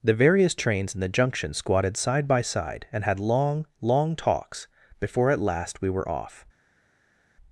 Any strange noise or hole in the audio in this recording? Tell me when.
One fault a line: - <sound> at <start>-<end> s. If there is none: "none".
none